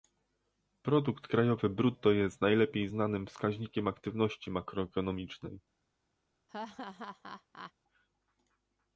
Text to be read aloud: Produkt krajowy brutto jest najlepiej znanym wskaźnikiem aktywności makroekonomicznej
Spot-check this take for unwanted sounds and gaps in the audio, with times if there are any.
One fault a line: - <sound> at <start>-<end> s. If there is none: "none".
- laugh at 6.5-7.7 s